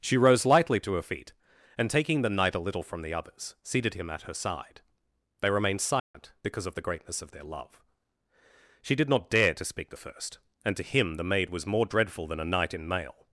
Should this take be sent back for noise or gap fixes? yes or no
yes